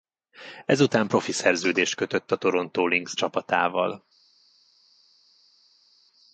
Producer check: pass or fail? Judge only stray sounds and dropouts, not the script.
pass